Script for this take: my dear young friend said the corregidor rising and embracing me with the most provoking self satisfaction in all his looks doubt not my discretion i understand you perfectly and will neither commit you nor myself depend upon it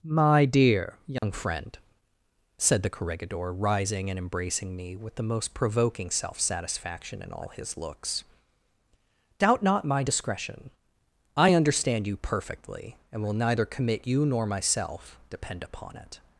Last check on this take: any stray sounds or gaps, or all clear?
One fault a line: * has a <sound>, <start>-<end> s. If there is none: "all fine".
* has a dropout, 1.2-1.2 s